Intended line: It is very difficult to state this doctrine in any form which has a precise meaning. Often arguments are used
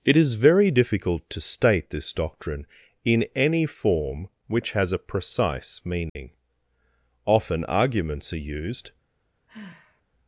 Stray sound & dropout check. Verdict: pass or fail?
fail